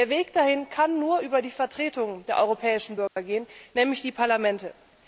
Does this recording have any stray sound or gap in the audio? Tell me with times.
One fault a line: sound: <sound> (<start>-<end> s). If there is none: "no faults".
sound: dropout (3.1-3.2 s)